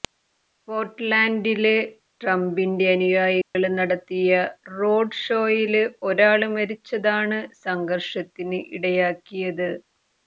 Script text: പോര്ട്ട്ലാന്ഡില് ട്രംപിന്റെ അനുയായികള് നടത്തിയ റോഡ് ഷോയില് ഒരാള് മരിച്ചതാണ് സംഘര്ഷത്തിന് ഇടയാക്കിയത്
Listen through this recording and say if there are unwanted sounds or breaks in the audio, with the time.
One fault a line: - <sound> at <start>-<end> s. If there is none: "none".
- dropout at 3.4-3.6 s